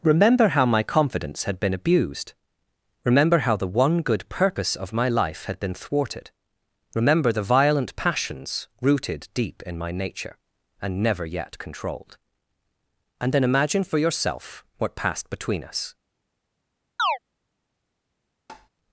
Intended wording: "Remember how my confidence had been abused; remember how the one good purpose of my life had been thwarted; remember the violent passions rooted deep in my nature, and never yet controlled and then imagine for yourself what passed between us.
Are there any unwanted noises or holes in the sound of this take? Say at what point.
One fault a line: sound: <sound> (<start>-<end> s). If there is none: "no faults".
sound: chirp (17.0-17.2 s)
sound: tap (18.5-18.7 s)